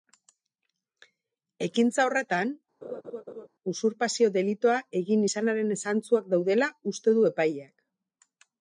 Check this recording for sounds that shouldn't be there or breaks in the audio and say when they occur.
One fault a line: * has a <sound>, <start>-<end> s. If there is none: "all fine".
* has a laugh, 2.8-3.5 s